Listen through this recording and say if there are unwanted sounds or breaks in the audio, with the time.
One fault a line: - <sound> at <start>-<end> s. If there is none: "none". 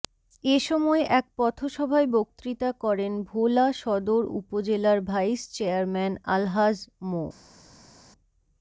none